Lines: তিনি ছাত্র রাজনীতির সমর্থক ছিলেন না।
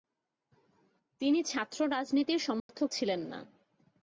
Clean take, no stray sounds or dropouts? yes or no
no